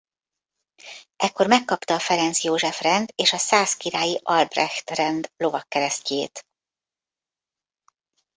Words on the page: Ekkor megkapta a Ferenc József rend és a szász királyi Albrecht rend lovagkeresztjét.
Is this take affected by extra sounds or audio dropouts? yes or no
no